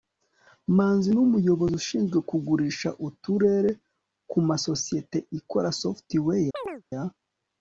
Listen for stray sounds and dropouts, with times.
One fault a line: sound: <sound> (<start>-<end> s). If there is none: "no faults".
sound: chirp (6.5-6.8 s)